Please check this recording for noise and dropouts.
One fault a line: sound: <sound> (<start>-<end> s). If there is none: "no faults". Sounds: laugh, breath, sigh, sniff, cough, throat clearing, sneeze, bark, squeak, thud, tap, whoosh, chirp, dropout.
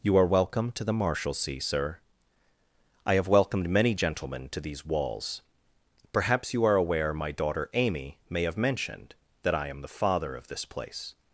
no faults